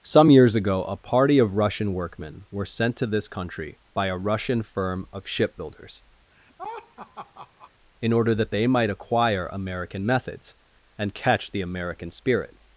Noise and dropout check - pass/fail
fail